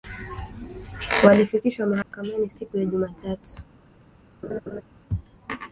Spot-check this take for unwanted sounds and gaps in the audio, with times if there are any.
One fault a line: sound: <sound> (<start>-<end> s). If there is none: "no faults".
sound: dropout (2.0-2.1 s)
sound: laugh (4.4-4.8 s)